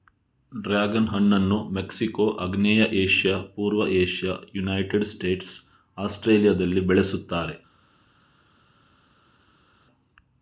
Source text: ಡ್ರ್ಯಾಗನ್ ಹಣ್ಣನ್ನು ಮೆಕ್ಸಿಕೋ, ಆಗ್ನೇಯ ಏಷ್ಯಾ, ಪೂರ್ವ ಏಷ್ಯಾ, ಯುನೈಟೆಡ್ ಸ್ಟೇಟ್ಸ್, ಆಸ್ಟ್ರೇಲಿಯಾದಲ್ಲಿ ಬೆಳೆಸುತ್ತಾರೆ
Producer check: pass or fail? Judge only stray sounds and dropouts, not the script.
pass